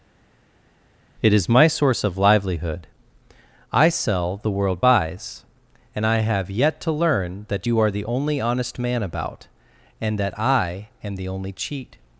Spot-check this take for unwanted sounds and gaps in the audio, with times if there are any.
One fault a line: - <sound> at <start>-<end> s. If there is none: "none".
none